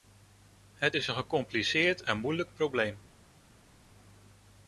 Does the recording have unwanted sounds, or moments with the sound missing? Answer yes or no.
no